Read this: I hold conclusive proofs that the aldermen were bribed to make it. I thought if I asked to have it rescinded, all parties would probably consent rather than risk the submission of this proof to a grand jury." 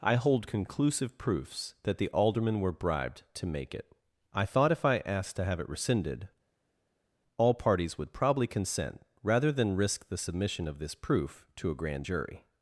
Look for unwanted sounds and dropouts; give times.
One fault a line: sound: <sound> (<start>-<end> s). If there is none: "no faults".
no faults